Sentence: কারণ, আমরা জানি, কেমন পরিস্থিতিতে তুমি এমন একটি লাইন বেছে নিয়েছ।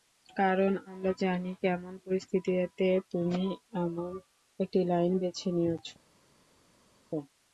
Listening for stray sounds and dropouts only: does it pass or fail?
pass